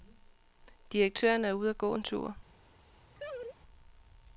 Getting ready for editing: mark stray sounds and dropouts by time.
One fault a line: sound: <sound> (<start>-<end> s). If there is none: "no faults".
sound: laugh (3.2-3.6 s)